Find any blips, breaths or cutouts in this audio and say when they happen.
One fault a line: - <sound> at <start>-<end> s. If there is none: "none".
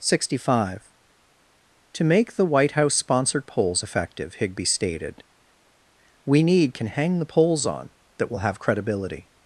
none